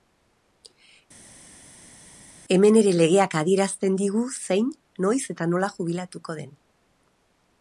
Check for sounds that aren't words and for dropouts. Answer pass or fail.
pass